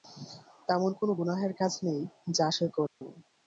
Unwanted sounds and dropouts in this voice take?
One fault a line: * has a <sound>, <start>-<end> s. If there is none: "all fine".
* has a dropout, 2.9-3.0 s